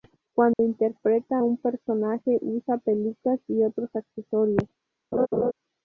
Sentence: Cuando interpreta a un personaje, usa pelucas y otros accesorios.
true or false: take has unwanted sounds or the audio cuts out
true